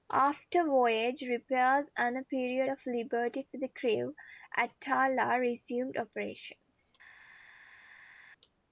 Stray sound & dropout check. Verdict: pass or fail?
pass